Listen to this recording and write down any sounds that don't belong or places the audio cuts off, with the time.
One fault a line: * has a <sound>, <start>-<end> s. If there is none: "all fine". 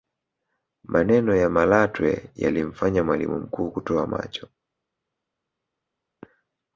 all fine